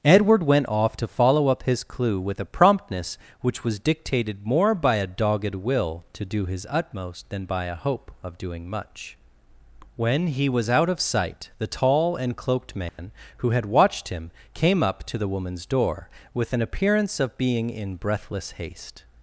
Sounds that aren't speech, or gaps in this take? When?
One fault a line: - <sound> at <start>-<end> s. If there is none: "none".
- dropout at 12.9-13.0 s